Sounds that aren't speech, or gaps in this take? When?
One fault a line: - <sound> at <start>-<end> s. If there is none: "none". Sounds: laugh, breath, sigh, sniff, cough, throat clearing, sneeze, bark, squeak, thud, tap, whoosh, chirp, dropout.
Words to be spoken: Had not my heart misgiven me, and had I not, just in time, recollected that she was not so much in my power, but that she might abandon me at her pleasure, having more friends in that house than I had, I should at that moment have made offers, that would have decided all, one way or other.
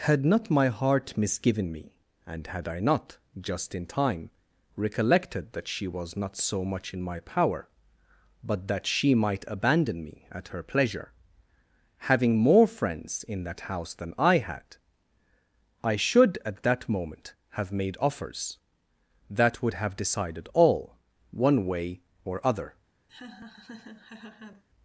- laugh at 23.1-24.6 s